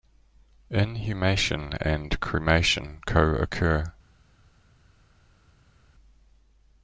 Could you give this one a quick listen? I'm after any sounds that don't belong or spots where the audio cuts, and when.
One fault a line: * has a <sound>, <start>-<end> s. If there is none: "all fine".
all fine